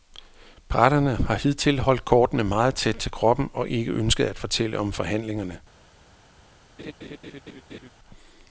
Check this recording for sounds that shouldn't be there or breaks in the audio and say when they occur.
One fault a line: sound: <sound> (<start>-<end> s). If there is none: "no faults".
sound: laugh (6.8-7.9 s)